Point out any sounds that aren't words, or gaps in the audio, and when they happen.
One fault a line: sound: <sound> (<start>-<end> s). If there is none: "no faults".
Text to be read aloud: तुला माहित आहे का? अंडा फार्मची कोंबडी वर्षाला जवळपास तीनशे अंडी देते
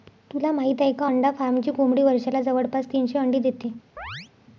sound: chirp (4.0-4.3 s)